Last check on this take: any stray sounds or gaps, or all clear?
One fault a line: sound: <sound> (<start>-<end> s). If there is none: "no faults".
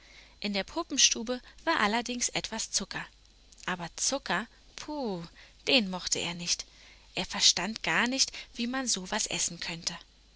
no faults